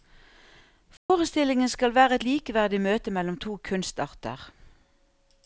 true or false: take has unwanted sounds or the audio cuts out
true